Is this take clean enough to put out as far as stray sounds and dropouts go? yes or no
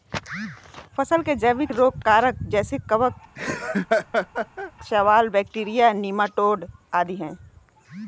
no